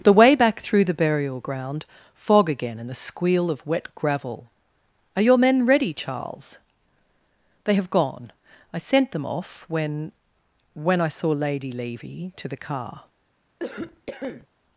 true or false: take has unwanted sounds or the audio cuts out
true